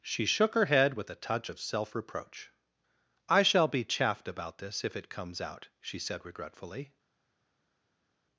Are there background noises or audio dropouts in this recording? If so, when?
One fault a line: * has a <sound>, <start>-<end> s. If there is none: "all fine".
all fine